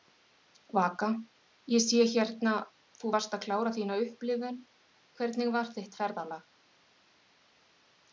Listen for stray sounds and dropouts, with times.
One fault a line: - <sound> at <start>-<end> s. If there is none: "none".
none